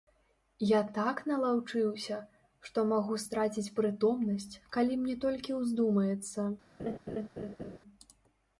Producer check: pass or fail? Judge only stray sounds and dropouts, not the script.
fail